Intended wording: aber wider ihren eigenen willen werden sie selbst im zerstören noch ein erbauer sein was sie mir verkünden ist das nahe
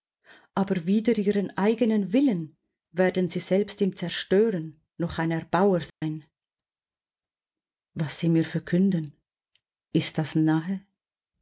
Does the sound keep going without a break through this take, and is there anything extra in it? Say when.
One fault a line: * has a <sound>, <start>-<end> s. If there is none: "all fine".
* has a dropout, 5.9-6.0 s